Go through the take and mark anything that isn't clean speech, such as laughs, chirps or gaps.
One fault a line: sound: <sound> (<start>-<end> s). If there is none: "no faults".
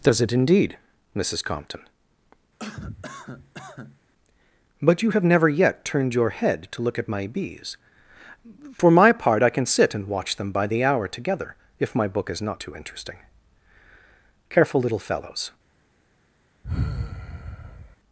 sound: cough (2.6-4.0 s)
sound: sigh (16.6-18.0 s)